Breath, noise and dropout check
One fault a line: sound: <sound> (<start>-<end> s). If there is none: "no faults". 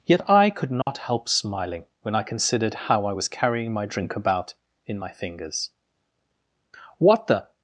sound: dropout (0.8-0.9 s)